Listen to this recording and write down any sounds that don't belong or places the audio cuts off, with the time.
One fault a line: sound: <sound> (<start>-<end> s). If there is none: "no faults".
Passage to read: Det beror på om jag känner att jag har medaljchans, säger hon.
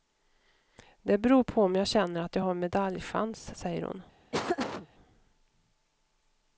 sound: laugh (4.3-4.9 s)